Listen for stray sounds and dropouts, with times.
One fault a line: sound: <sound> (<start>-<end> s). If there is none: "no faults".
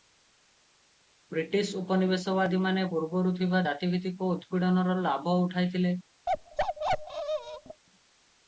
sound: bark (6.3-7.8 s)